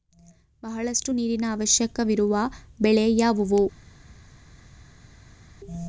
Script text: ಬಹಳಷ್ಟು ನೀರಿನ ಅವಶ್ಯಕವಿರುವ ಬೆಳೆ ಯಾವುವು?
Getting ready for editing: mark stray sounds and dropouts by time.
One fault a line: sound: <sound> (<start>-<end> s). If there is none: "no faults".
no faults